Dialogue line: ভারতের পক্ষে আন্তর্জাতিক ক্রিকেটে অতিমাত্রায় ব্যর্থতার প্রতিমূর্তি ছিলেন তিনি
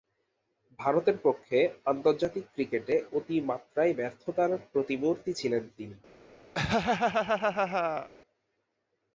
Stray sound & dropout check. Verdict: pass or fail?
fail